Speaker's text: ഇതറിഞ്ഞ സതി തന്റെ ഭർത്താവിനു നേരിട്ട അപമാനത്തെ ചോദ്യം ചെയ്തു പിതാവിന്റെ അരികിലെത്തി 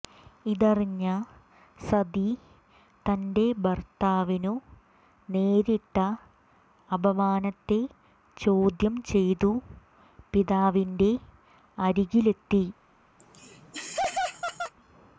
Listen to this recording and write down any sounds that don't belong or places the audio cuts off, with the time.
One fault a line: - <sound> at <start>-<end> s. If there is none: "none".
- laugh at 13.2-14.7 s